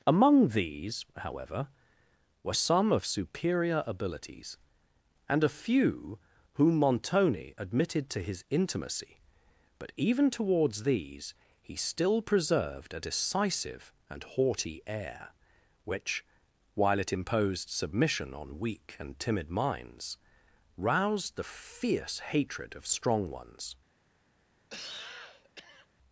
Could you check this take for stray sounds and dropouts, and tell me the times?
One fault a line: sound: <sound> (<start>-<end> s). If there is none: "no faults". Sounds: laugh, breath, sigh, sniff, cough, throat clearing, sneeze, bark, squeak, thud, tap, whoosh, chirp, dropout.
sound: cough (24.7-25.9 s)